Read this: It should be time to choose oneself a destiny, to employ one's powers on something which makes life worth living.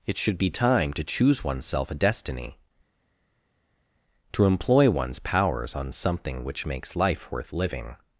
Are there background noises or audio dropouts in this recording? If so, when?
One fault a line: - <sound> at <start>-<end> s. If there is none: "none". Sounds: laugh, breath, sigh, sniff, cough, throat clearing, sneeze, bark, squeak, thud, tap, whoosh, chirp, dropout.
none